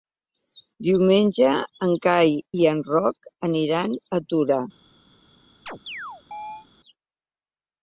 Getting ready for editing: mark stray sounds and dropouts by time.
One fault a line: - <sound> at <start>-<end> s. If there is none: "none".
- chirp at 5.7-6.7 s